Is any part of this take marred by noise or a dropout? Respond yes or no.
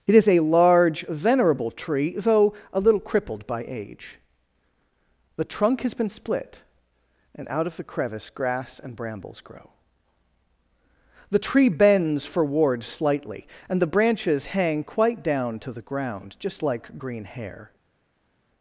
no